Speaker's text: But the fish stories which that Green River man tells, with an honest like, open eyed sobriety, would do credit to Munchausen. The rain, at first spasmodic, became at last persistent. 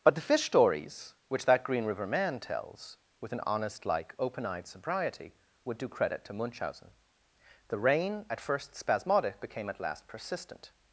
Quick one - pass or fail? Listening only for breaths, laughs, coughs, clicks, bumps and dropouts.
pass